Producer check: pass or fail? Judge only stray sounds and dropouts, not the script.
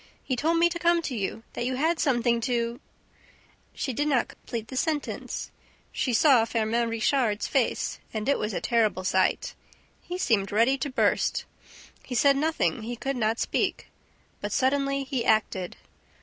fail